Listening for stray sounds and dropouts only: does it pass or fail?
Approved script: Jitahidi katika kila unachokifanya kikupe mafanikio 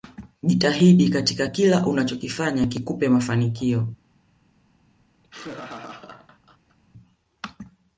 fail